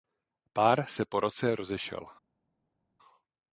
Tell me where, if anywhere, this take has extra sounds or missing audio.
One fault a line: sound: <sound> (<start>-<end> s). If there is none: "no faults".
no faults